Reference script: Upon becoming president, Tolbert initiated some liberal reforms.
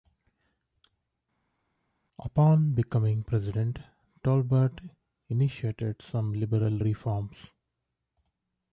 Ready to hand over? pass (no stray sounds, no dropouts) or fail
pass